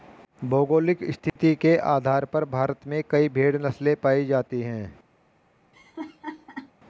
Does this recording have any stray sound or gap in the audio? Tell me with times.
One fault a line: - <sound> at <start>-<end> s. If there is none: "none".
- dropout at 1.3-1.4 s
- laugh at 5.7-6.7 s